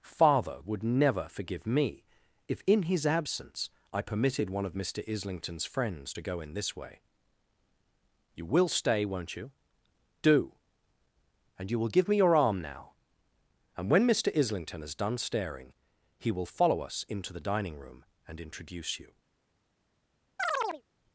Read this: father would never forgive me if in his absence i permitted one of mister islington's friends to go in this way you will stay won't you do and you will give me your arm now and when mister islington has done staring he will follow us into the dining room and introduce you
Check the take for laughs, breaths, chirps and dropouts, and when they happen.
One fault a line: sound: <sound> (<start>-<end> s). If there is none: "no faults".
sound: chirp (20.4-20.8 s)